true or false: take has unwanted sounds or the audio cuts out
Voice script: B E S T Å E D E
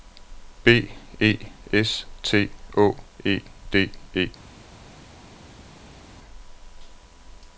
false